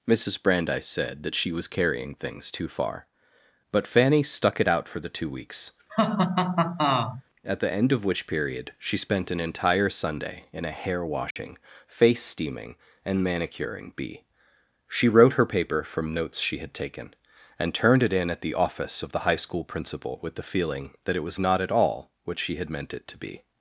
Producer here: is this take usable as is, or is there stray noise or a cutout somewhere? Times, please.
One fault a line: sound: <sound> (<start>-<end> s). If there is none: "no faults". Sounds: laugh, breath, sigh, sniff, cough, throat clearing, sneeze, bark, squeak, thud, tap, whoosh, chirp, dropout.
sound: laugh (5.9-7.2 s)
sound: dropout (11.3-11.4 s)